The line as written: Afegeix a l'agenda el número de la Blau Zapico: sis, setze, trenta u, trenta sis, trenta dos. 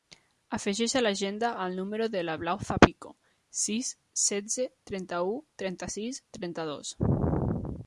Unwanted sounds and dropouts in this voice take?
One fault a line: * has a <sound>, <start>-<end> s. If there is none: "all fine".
all fine